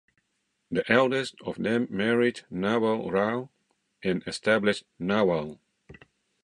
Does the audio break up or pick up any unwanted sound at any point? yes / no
no